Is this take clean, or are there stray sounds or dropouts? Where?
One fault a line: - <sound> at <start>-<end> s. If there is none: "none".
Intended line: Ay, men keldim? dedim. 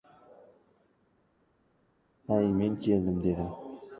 none